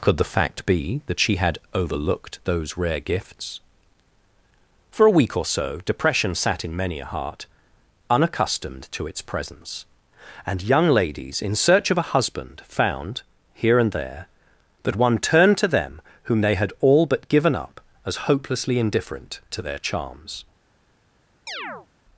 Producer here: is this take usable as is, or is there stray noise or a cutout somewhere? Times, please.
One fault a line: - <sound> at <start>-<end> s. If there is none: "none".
- chirp at 21.5-21.9 s